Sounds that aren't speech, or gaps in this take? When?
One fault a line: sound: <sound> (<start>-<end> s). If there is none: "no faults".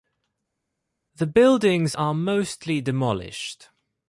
no faults